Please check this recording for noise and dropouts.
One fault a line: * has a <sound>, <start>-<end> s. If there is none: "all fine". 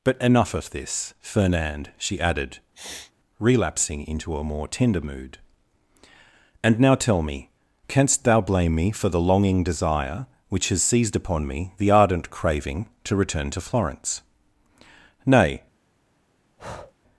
* has a sniff, 2.7-3.1 s
* has a breath, 16.6-16.9 s